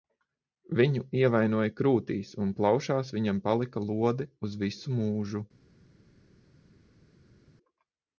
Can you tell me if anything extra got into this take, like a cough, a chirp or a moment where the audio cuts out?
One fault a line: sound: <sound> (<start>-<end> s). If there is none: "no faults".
no faults